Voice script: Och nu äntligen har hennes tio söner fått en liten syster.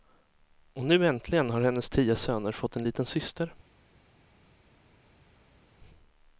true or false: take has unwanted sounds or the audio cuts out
false